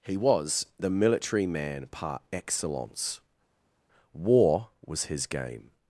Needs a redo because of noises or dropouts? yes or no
no